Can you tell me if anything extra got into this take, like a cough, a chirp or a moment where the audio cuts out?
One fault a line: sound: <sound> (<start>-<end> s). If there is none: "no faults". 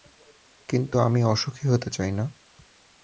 no faults